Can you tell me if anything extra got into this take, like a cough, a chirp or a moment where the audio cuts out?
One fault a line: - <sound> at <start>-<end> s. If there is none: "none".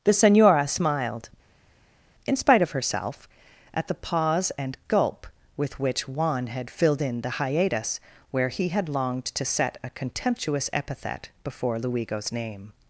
none